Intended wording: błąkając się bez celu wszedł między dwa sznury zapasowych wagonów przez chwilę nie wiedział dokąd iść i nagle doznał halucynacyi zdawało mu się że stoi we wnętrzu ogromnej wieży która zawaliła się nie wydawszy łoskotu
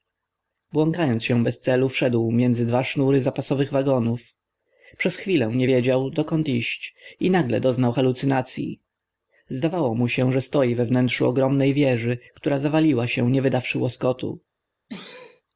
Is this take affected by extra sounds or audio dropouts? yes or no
yes